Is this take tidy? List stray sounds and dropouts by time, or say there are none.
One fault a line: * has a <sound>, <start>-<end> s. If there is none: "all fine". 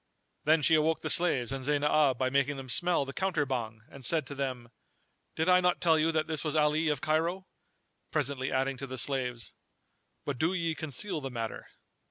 all fine